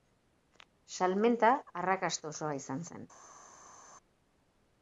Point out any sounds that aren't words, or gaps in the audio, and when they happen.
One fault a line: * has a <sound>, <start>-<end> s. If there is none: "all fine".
all fine